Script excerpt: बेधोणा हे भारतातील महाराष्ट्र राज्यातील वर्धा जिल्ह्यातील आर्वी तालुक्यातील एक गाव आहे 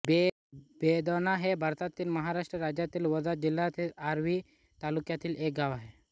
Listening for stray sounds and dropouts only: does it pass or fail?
pass